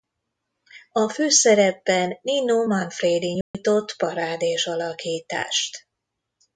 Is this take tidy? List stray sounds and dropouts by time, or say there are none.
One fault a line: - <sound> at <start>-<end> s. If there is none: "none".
- dropout at 3.4-3.5 s